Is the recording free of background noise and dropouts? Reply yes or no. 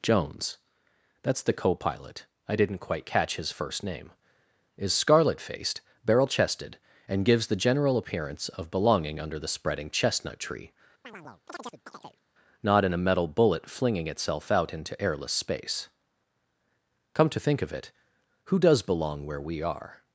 no